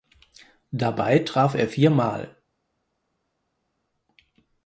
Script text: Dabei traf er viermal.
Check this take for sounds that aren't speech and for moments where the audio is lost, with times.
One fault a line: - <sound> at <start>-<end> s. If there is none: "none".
none